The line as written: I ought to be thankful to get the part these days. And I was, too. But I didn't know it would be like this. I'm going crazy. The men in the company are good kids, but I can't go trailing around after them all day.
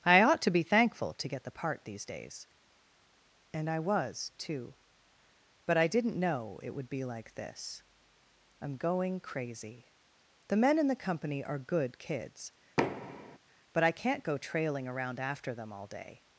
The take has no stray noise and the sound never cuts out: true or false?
false